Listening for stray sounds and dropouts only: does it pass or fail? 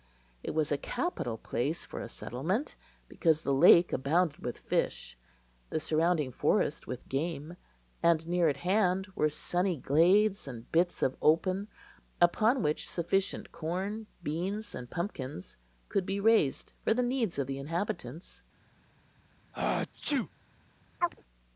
fail